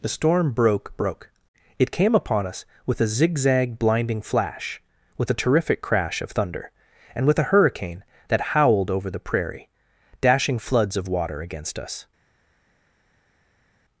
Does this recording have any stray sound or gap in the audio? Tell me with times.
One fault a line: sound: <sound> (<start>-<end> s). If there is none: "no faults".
no faults